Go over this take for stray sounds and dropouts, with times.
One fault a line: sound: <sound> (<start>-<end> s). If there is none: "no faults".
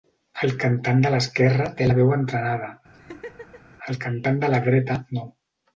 sound: laugh (2.9-3.8 s)